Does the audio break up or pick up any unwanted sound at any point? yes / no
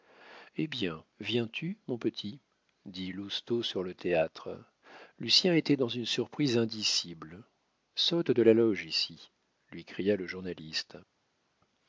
no